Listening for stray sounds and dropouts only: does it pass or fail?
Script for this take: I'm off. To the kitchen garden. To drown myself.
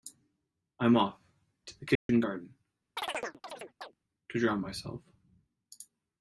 fail